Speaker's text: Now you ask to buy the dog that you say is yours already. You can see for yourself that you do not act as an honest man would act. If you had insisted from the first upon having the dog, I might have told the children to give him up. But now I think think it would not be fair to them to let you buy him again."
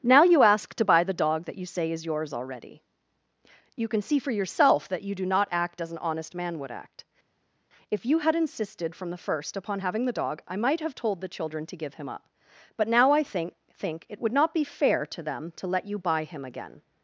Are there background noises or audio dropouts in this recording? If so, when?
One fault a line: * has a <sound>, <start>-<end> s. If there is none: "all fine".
all fine